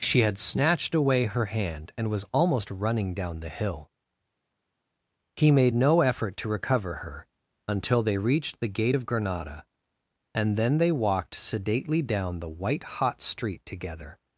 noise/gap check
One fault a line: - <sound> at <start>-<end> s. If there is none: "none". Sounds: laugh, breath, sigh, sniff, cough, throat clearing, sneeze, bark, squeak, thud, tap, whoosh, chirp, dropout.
none